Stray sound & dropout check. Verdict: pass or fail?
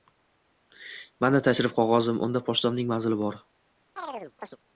fail